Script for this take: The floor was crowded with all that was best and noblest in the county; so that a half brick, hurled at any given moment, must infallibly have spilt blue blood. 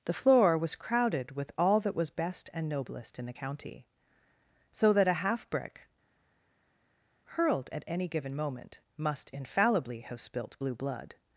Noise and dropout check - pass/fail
pass